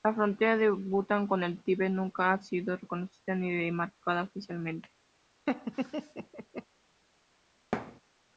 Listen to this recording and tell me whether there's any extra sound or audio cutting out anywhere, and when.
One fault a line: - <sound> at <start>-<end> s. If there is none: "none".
- laugh at 5.5-6.7 s
- thud at 7.7-8.0 s